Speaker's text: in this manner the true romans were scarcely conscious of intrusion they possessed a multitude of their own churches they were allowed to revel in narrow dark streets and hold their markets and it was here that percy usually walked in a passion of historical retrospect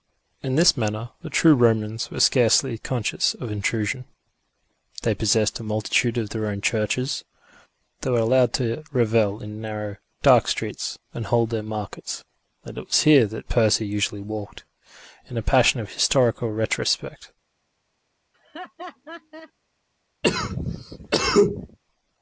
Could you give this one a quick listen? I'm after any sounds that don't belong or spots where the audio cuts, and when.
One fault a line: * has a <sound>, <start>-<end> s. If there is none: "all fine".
* has a laugh, 18.3-19.5 s
* has a cough, 20.2-21.8 s